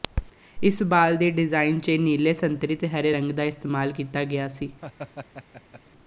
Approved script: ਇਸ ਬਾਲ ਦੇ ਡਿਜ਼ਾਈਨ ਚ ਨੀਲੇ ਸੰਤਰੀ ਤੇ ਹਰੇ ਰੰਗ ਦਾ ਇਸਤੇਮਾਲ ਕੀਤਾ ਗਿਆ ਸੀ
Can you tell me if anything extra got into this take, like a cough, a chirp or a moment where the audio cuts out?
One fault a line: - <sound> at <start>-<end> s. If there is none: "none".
- laugh at 4.8-5.8 s